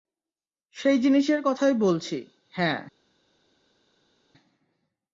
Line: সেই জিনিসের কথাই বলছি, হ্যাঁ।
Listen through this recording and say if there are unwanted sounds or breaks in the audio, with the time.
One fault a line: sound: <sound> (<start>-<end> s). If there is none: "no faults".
no faults